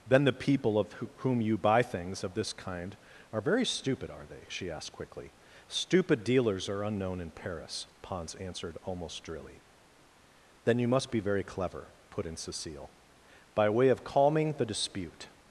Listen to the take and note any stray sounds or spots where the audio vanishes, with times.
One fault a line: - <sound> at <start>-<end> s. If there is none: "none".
none